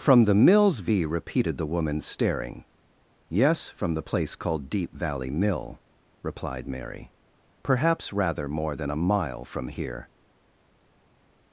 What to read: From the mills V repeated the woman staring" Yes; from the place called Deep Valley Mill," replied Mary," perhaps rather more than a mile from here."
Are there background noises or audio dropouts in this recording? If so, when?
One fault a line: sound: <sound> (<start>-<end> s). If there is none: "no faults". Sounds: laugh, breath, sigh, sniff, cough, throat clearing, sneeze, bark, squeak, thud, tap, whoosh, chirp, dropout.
no faults